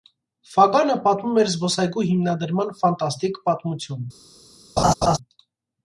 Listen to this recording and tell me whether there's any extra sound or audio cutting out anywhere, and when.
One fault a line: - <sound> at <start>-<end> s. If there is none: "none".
- laugh at 4.8-5.2 s